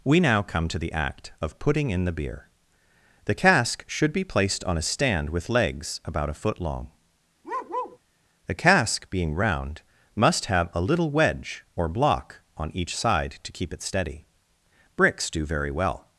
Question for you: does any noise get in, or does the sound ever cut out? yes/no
yes